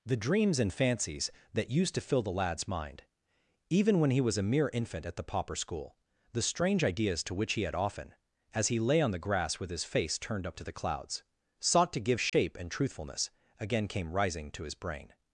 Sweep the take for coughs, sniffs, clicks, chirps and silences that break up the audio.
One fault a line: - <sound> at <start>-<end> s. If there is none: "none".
- dropout at 12.3-12.3 s